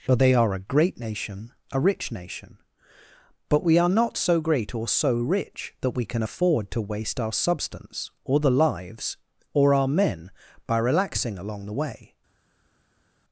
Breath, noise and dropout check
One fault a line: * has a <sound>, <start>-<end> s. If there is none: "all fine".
all fine